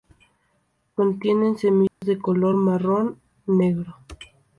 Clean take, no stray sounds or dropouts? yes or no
no